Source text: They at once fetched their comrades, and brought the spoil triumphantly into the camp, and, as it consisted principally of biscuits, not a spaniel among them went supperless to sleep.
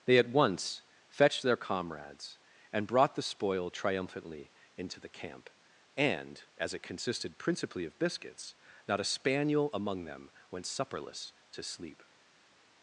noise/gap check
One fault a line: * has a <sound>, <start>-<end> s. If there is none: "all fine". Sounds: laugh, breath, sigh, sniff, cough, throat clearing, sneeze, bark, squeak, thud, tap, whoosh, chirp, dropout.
all fine